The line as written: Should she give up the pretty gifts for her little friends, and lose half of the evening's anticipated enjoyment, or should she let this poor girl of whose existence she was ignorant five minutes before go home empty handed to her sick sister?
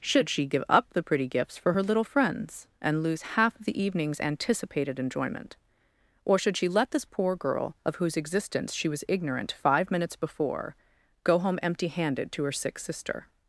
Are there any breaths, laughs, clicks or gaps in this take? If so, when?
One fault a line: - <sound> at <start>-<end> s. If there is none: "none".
none